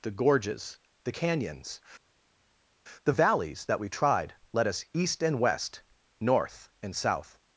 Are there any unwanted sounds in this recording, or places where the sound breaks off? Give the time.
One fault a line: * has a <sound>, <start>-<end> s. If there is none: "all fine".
all fine